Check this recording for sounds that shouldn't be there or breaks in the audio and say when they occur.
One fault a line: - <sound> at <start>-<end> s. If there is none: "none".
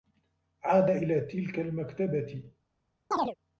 - chirp at 3.1-3.4 s